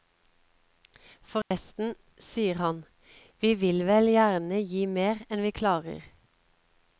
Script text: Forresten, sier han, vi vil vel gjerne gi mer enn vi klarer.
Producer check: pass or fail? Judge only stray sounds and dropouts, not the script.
fail